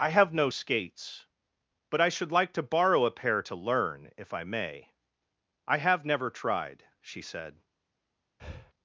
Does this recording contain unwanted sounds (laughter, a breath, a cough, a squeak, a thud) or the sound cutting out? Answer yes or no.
yes